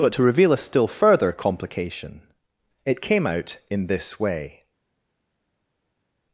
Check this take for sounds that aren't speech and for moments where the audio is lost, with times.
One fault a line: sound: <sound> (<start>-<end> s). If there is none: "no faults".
no faults